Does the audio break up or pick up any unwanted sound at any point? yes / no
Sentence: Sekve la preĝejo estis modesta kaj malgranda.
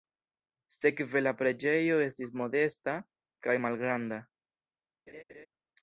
yes